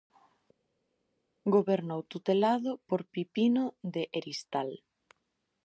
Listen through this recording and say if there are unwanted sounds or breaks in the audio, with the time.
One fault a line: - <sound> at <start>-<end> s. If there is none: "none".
none